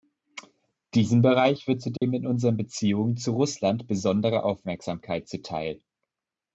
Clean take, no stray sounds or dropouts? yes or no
no